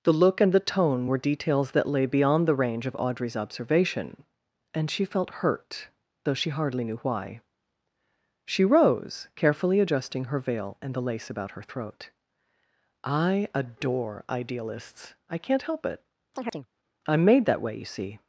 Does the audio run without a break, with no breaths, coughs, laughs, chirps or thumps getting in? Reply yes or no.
no